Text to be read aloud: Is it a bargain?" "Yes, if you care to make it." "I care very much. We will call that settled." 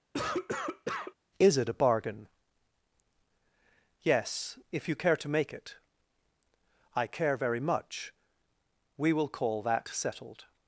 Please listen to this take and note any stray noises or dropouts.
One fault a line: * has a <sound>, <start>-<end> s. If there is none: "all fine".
* has a cough, 0.1-1.1 s